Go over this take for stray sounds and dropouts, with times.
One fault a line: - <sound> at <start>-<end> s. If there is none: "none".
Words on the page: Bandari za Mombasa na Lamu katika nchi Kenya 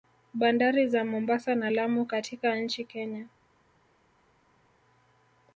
none